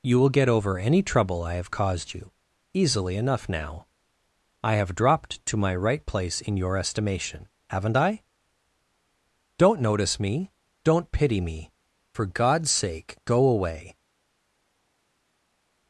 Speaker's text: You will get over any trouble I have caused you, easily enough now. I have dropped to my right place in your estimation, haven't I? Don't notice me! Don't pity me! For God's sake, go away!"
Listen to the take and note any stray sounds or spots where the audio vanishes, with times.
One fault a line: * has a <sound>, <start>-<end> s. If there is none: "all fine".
all fine